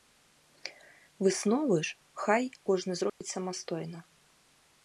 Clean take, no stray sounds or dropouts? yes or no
no